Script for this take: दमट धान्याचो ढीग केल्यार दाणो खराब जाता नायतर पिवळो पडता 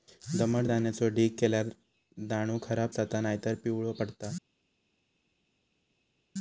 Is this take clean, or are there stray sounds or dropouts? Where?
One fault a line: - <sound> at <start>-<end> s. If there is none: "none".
none